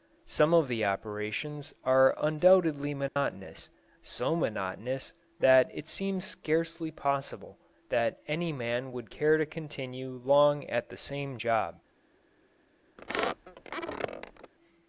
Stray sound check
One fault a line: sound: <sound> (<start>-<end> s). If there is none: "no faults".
sound: dropout (3.1-3.2 s)
sound: squeak (13.0-14.5 s)